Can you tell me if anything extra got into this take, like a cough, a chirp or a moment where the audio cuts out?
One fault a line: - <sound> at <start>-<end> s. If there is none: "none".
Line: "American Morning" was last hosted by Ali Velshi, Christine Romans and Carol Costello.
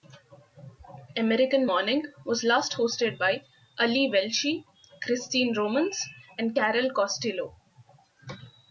none